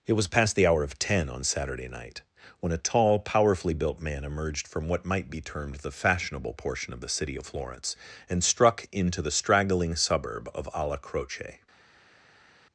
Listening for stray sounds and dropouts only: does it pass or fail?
pass